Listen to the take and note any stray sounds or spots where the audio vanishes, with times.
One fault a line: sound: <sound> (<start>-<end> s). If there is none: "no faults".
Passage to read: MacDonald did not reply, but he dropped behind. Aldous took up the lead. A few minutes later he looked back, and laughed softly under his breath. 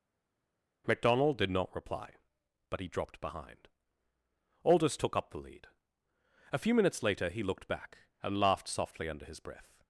no faults